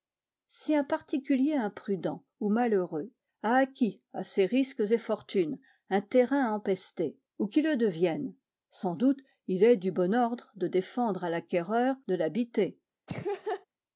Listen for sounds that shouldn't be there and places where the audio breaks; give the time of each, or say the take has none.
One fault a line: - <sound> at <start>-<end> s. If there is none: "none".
- laugh at 13.1-13.7 s